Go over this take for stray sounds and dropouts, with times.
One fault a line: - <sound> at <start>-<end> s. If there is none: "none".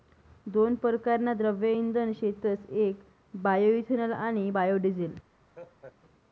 - laugh at 5.5-6.0 s